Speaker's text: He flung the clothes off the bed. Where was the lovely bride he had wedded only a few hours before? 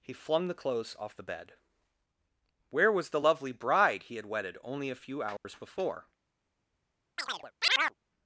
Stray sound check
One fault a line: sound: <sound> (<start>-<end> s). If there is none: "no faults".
sound: dropout (5.4-5.4 s)
sound: chirp (7.2-7.9 s)